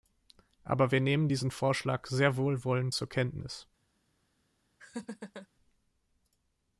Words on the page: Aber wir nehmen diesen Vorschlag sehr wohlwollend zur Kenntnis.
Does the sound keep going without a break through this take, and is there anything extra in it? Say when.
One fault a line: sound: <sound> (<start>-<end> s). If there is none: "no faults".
sound: laugh (4.8-5.5 s)